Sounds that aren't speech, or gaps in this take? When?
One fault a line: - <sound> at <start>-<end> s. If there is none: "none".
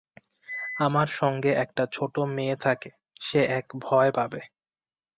none